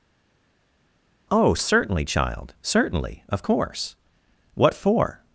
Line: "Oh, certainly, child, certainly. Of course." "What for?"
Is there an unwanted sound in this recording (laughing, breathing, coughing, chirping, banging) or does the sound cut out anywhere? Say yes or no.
no